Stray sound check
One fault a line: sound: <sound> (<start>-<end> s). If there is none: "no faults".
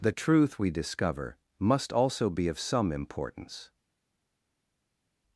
no faults